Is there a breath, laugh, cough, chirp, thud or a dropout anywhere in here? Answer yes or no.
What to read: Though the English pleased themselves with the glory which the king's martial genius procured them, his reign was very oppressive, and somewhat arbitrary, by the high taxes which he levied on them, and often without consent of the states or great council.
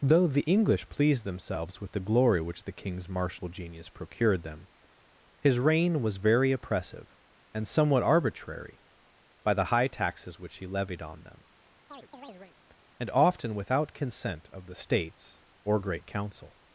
yes